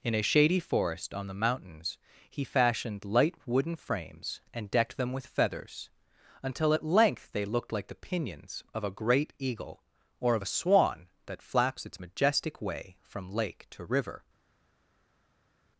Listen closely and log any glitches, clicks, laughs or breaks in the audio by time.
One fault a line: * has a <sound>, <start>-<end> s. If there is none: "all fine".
all fine